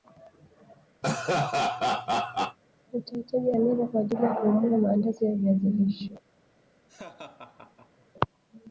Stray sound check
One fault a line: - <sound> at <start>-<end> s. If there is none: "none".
- laugh at 1.0-2.6 s
- laugh at 6.9-8.1 s